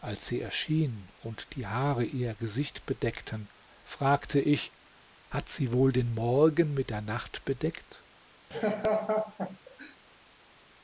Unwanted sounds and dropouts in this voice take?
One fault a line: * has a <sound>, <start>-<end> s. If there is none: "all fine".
* has a laugh, 8.5-10.0 s